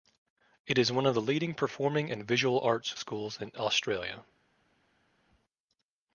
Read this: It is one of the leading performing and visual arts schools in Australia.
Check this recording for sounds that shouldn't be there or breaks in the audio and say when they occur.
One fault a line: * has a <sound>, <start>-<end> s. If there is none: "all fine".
all fine